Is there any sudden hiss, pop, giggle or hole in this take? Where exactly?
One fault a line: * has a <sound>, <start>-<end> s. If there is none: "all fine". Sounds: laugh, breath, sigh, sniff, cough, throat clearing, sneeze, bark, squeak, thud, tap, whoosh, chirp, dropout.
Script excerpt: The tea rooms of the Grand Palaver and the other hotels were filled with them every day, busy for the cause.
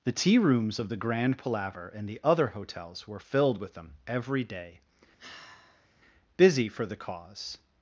* has a sigh, 5.2-5.9 s